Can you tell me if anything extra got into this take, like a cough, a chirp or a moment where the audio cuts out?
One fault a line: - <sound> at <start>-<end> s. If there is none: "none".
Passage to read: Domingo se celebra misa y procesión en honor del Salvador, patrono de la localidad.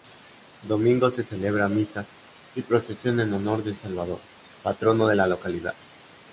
none